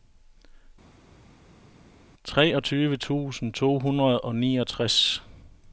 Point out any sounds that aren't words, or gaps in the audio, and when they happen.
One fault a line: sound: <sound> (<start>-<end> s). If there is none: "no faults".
no faults